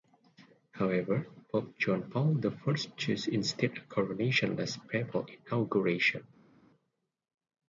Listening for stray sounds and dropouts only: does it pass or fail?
pass